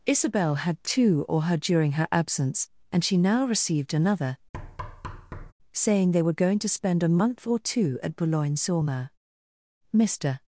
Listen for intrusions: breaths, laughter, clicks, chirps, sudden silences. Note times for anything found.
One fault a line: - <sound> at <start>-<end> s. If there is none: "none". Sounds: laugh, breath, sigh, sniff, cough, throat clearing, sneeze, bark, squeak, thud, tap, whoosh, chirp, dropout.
- thud at 4.5-5.5 s